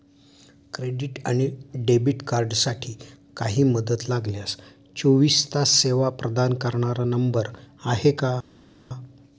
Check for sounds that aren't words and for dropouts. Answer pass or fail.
pass